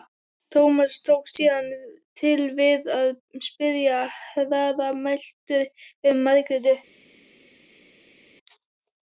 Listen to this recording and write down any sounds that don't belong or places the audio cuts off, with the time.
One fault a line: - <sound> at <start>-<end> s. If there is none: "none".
none